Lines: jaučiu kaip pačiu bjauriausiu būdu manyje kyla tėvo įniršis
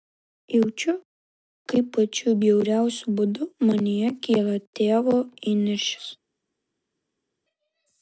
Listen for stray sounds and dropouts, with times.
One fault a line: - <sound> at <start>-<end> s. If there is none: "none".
none